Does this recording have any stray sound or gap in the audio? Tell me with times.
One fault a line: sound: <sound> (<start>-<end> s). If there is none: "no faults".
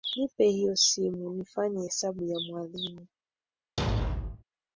sound: thud (3.8-4.4 s)